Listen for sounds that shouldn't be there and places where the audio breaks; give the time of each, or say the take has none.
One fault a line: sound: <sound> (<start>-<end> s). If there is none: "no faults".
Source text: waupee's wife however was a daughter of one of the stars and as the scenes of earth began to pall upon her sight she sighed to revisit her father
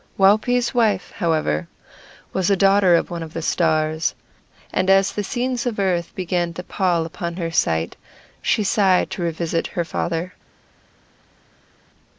no faults